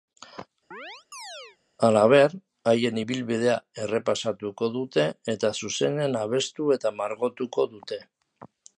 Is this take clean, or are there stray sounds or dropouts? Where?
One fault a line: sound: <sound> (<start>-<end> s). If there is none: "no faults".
sound: chirp (0.7-1.6 s)